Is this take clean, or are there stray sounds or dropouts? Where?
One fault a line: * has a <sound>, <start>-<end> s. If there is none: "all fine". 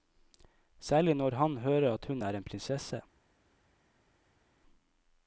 all fine